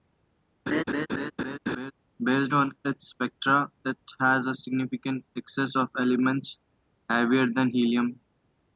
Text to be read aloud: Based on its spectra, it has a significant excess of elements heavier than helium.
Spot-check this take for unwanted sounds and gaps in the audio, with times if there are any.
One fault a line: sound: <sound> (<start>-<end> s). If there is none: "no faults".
sound: laugh (0.7-1.9 s)